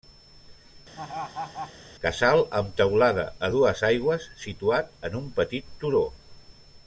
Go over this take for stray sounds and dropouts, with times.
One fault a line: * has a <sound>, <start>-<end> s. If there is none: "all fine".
* has a laugh, 1.0-1.7 s